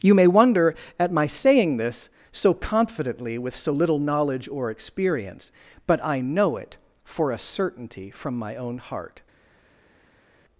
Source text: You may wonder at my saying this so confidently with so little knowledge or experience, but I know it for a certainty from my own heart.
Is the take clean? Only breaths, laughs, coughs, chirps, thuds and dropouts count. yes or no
yes